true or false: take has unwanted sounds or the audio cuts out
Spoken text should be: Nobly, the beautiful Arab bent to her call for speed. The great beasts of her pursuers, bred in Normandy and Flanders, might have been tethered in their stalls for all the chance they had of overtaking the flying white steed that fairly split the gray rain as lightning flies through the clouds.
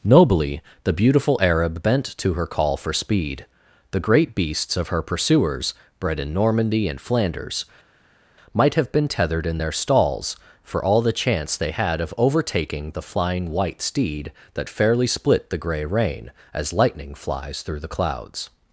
false